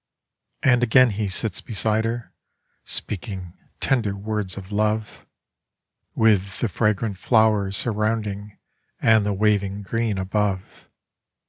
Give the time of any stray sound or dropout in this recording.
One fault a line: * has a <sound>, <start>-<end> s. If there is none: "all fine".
all fine